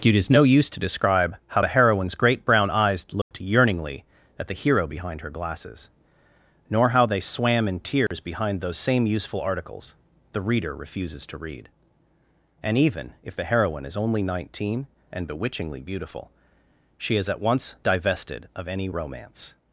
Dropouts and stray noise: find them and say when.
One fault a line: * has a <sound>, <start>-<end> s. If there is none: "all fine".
* has a dropout, 3.2-3.3 s
* has a dropout, 8.1-8.1 s